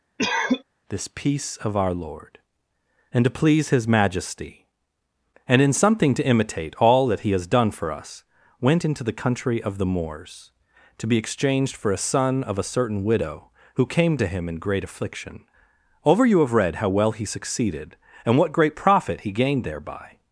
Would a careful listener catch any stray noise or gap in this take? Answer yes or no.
yes